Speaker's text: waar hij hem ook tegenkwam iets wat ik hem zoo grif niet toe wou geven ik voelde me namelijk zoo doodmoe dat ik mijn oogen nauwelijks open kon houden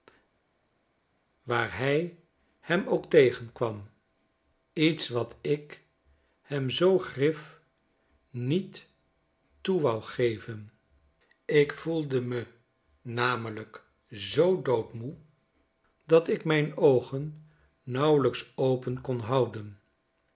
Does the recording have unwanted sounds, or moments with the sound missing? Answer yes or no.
no